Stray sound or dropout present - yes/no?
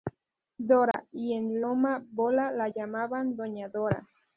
yes